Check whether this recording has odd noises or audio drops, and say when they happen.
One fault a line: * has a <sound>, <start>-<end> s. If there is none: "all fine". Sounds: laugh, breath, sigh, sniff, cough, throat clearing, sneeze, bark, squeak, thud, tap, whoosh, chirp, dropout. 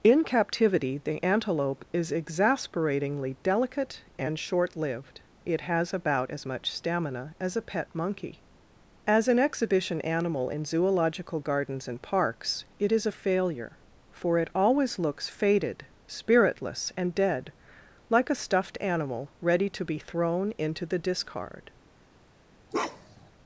* has a bark, 22.7-23.3 s